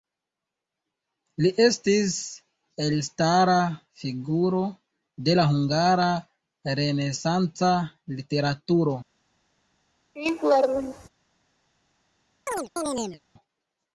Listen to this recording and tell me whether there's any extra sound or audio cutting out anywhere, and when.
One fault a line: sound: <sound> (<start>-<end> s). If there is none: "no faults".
sound: laugh (10.2-11.1 s)
sound: chirp (12.5-13.2 s)